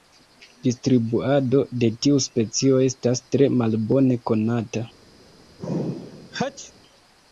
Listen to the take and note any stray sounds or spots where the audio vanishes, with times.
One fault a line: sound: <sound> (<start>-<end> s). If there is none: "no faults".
sound: sneeze (5.6-6.7 s)